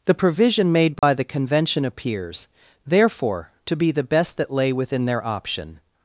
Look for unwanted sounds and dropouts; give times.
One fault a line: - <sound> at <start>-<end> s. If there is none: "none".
- dropout at 1.0-1.0 s